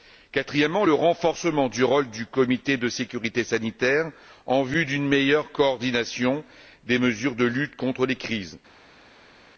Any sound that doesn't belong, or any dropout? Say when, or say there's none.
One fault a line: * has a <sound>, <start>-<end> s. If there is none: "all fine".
all fine